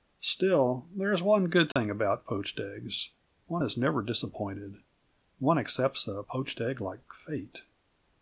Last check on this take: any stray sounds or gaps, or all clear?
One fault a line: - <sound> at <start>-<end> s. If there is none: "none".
- dropout at 1.7-1.8 s